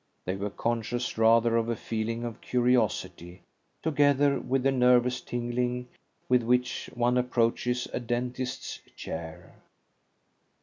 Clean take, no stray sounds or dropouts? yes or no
yes